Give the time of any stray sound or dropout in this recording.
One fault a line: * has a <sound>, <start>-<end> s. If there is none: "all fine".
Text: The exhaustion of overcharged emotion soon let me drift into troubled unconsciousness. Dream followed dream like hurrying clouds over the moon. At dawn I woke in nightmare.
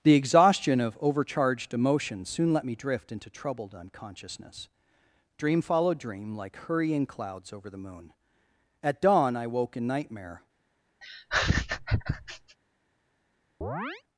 * has a laugh, 11.0-12.6 s
* has a chirp, 13.6-14.0 s